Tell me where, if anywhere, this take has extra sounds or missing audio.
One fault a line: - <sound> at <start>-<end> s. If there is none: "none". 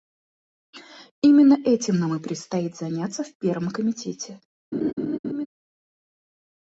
- laugh at 4.7-5.5 s